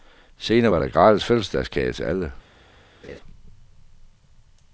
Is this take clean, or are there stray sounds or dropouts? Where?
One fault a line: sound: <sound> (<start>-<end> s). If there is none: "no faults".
sound: laugh (3.0-3.2 s)